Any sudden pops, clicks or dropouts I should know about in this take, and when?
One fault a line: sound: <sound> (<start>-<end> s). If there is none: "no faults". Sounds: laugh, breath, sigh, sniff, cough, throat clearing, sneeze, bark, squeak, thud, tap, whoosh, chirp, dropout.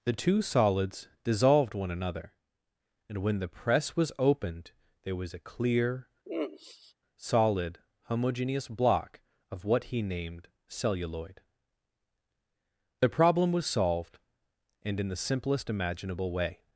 sound: sigh (6.2-6.9 s)